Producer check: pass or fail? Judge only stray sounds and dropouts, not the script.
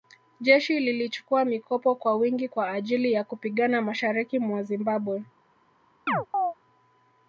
fail